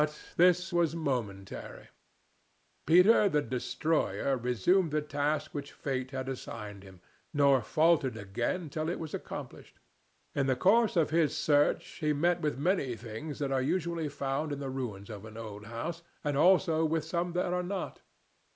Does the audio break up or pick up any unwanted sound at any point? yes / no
no